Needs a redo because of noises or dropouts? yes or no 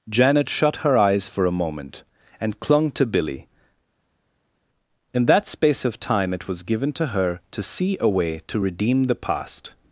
no